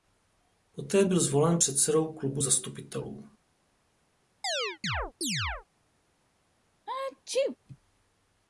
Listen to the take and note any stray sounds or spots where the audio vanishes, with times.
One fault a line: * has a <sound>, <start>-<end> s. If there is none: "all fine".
* has a chirp, 4.4-5.7 s
* has a sneeze, 6.9-7.6 s